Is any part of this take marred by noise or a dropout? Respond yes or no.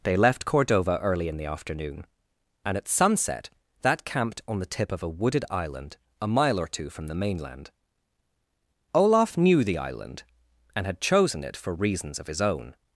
no